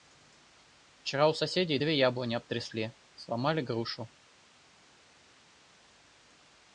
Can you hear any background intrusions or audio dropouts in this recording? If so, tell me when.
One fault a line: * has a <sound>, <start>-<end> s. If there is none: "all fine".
all fine